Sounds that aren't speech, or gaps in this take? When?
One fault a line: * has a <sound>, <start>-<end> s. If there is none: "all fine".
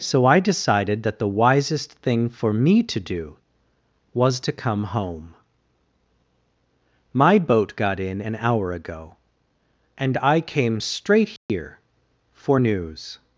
* has a dropout, 11.4-11.5 s